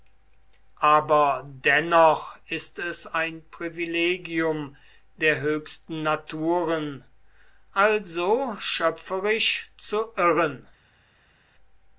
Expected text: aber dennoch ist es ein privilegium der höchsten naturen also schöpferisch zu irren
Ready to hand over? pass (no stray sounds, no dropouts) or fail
pass